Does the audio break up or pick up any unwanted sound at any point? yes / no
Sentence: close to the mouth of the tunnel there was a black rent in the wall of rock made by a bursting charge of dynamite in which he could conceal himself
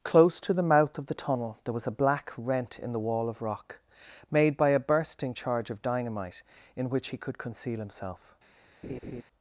yes